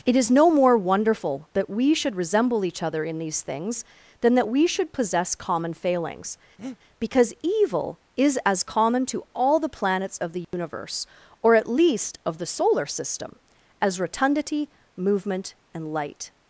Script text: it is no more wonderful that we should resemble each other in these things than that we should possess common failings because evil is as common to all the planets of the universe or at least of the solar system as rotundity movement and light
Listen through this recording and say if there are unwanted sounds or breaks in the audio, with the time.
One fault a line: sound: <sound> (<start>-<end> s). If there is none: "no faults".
sound: breath (6.6-6.8 s)
sound: dropout (10.4-10.5 s)